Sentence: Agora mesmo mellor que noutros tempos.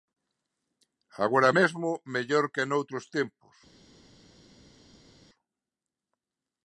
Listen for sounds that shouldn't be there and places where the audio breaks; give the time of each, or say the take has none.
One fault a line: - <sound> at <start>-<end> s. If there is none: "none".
none